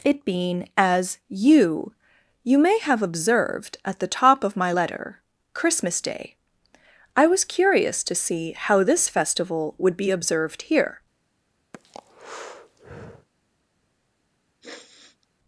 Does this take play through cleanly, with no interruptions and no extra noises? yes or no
no